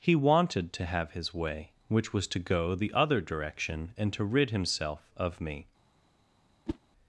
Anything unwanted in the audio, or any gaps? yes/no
yes